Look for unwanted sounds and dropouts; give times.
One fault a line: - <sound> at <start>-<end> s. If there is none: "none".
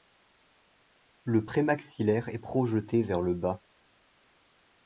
none